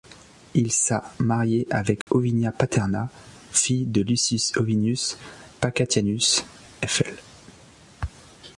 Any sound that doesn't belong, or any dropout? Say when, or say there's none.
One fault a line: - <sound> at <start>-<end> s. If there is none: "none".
- dropout at 2.0-2.1 s